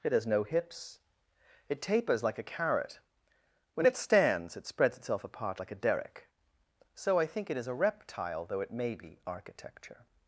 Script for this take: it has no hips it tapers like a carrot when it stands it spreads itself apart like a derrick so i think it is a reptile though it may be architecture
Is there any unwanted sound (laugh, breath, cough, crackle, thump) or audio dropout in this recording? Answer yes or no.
no